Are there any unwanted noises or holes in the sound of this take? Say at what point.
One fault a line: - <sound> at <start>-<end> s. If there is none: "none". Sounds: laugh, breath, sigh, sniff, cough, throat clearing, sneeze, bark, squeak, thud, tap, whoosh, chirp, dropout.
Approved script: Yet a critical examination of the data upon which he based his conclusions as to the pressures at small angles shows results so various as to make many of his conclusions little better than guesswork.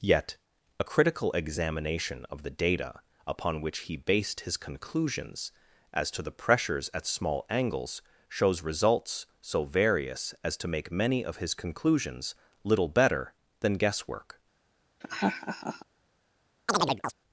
- laugh at 15.0-15.9 s
- chirp at 16.7-17.1 s